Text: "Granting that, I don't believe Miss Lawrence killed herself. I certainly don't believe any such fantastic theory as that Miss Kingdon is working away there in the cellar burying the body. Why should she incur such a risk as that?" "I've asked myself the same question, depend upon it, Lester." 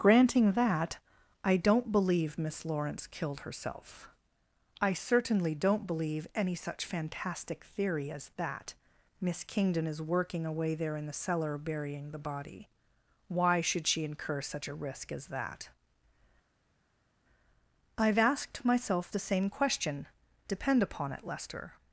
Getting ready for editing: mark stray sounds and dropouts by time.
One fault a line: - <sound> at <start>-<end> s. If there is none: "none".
none